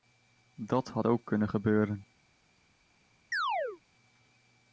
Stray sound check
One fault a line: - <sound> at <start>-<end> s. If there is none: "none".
- chirp at 3.3-3.8 s